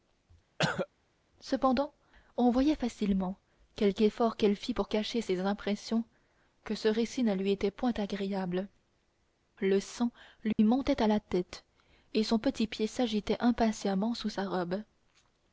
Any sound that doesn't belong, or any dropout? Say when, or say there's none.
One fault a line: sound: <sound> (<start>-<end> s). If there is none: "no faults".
sound: cough (0.6-0.9 s)
sound: dropout (10.5-10.6 s)